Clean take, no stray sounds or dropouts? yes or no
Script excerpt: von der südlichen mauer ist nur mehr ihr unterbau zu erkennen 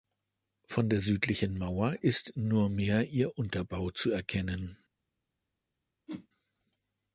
no